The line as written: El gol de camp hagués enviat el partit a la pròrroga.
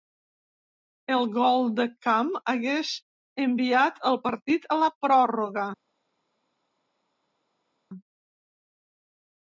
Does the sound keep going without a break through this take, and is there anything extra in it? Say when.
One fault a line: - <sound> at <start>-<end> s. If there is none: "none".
none